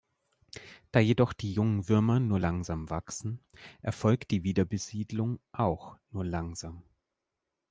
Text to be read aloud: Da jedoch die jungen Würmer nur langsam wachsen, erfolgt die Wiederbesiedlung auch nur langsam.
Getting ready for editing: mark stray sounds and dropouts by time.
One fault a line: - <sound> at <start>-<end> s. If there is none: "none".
none